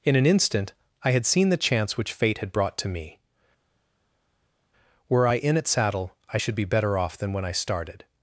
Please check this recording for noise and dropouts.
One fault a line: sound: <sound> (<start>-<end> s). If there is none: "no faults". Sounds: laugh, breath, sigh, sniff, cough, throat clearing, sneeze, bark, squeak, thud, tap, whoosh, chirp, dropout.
no faults